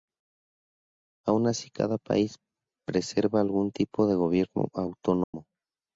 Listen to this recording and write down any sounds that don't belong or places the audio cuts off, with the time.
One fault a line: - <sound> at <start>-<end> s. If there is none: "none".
- dropout at 5.2-5.3 s